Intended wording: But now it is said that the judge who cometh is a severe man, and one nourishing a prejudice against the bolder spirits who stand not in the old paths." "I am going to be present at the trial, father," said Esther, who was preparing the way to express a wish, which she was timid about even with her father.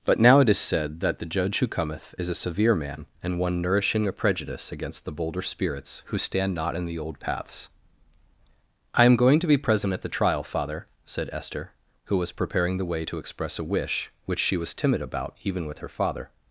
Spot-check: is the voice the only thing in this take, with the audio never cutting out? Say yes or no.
yes